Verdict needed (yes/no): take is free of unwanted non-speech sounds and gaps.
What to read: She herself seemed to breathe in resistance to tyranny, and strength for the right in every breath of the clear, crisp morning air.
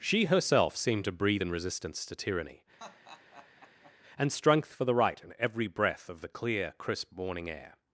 no